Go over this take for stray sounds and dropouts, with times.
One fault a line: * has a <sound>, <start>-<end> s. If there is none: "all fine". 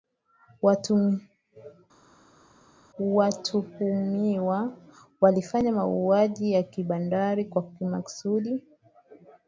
all fine